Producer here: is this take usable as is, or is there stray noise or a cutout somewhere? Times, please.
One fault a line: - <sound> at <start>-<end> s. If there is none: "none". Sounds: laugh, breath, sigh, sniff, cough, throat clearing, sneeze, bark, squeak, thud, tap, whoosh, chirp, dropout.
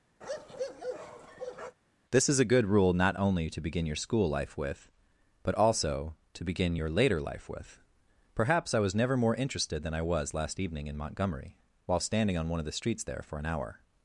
- bark at 0.2-1.8 s